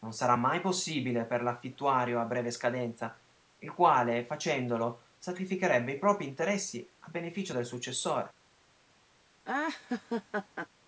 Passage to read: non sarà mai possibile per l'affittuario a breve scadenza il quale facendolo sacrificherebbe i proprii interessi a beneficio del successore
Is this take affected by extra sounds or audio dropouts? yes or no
yes